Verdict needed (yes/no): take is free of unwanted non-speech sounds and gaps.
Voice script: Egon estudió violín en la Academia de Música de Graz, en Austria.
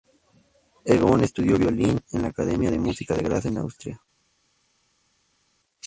yes